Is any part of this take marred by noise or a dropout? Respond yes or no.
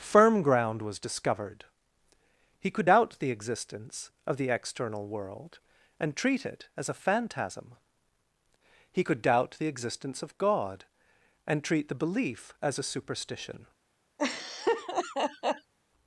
yes